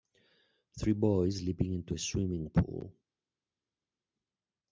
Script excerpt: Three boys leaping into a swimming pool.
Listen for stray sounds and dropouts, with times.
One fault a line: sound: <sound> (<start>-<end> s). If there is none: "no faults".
no faults